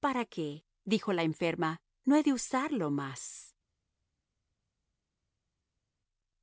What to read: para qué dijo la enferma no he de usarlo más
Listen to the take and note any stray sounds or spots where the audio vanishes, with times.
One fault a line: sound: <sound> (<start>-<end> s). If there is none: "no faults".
no faults